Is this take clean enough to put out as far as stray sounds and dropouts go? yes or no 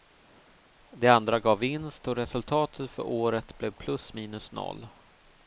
yes